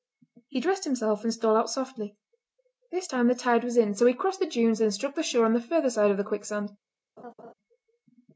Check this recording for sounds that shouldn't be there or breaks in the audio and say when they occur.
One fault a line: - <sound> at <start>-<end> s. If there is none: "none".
- laugh at 7.2-7.5 s